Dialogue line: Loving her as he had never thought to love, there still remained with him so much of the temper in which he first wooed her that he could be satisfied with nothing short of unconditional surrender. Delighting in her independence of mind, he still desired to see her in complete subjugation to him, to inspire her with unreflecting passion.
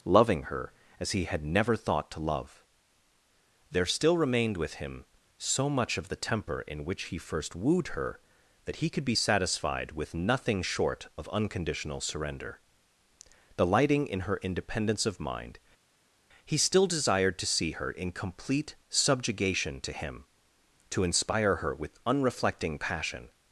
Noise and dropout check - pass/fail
pass